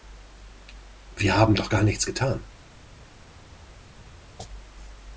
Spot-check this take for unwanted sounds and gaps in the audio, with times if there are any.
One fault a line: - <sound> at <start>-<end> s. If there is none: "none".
none